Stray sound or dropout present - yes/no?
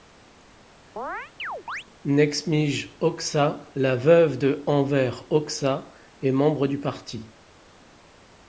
yes